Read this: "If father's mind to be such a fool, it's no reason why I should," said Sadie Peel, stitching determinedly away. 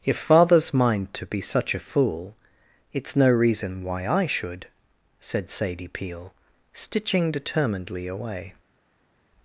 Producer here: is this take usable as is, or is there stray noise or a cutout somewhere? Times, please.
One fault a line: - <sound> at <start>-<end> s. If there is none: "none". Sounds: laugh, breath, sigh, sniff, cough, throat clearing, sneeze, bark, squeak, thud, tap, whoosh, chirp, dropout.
none